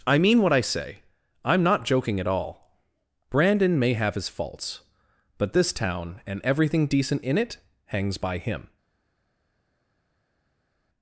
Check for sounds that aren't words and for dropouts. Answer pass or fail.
pass